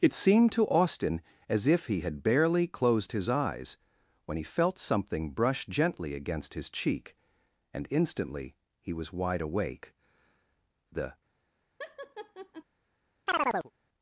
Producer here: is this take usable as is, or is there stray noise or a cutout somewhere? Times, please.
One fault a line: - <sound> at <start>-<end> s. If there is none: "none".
- laugh at 11.8-12.6 s
- chirp at 13.3-13.7 s